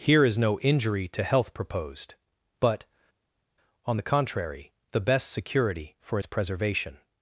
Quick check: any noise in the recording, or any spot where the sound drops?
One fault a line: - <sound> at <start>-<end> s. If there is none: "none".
none